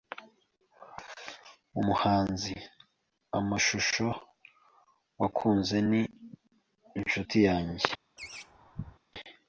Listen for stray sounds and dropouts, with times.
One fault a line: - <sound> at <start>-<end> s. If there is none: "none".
- laugh at 8.2-9.0 s